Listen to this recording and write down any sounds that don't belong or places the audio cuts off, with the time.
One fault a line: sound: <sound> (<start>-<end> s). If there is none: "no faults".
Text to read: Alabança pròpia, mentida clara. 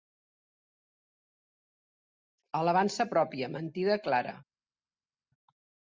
no faults